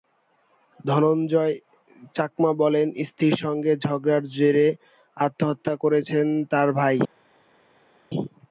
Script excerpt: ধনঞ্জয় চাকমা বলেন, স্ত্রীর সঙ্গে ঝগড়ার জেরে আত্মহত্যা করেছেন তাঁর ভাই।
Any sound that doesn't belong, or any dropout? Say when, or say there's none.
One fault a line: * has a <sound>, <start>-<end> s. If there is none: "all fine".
all fine